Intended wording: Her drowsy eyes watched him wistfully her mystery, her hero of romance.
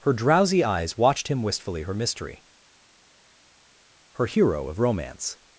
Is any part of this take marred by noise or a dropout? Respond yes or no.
no